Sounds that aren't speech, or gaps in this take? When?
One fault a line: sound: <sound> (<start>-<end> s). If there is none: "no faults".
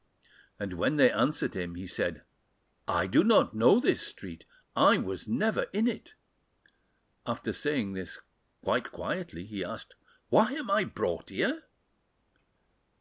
no faults